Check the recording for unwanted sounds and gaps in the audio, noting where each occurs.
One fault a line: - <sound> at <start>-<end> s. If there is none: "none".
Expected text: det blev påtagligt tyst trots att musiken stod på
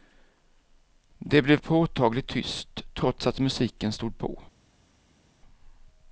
none